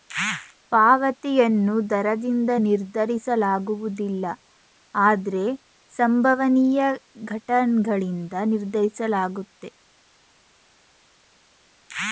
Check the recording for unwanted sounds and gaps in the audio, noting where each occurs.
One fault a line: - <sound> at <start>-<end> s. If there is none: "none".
none